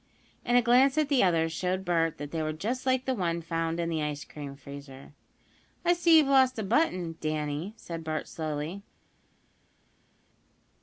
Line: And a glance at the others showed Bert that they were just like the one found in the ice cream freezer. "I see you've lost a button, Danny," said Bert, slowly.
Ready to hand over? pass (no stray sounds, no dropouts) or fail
pass